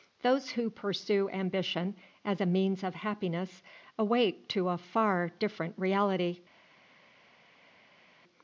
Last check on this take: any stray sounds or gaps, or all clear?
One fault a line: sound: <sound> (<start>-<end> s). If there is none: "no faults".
no faults